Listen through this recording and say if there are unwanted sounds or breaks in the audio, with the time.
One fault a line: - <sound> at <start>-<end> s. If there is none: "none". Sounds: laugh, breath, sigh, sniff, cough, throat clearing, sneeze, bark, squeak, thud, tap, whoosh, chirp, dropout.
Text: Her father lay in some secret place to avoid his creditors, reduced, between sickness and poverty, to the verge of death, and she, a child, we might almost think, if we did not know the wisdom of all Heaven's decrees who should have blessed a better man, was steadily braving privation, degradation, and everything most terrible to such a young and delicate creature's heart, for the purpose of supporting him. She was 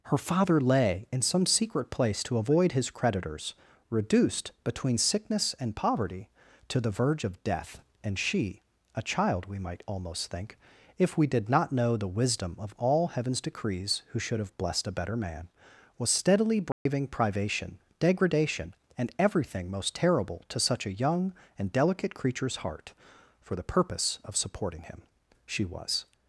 - dropout at 16.7-16.9 s